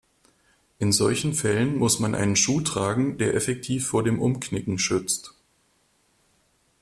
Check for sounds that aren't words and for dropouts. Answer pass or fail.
pass